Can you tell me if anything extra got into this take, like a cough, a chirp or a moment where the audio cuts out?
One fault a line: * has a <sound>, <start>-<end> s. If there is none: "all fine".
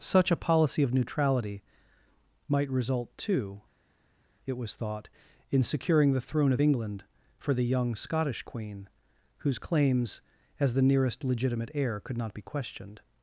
all fine